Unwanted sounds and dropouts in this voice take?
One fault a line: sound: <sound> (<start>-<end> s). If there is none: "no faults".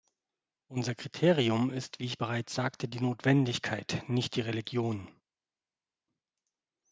no faults